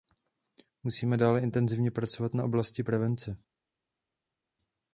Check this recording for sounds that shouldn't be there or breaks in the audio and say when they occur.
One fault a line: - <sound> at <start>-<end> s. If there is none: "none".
none